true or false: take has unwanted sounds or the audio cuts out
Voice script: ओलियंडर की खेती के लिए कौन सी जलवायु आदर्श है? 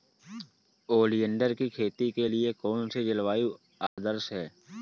true